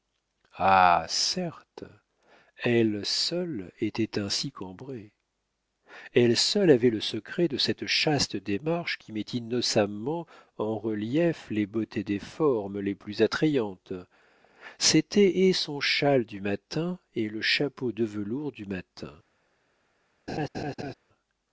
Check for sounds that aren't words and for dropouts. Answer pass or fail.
fail